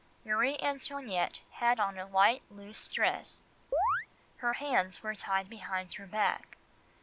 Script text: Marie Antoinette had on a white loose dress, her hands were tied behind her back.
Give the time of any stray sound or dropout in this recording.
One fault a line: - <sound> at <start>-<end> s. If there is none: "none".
- chirp at 3.7-4.1 s